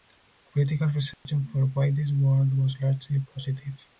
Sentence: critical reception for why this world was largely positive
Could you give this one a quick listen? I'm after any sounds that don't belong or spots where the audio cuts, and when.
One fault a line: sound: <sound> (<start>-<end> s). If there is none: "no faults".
sound: dropout (1.1-1.3 s)